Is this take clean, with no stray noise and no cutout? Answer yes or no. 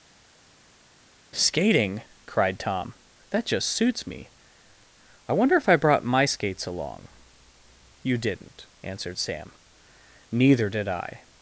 yes